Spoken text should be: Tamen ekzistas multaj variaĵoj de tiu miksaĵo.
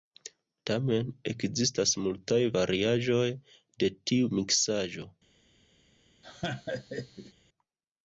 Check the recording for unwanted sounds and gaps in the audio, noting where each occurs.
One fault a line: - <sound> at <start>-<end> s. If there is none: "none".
- laugh at 6.2-7.3 s